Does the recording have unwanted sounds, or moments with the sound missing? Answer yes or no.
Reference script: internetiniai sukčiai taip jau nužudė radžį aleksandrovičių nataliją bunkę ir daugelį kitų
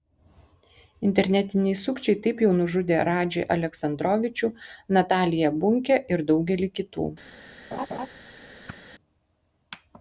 yes